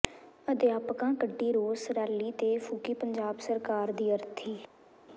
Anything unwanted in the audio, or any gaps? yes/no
no